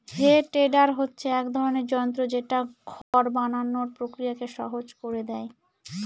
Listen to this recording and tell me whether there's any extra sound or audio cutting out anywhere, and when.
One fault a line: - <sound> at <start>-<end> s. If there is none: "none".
- dropout at 3.0-3.1 s